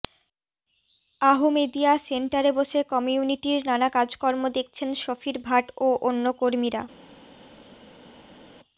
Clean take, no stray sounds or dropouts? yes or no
yes